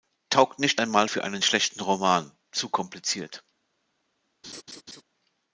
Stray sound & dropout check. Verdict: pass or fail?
fail